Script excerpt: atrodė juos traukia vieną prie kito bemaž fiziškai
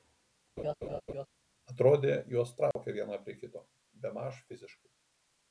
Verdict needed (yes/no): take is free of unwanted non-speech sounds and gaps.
no